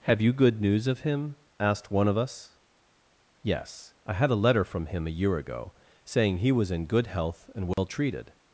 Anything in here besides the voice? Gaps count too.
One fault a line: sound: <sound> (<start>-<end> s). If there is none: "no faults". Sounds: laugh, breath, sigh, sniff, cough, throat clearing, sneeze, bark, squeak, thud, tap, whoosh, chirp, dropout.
sound: dropout (7.7-7.8 s)